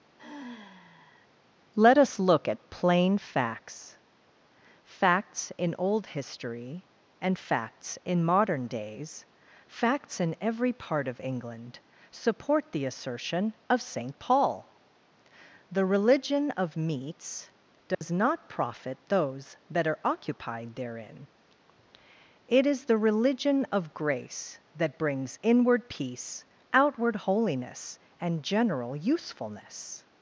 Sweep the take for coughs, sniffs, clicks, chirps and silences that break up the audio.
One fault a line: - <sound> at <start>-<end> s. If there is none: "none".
- sigh at 0.2-1.3 s
- dropout at 17.9-18.0 s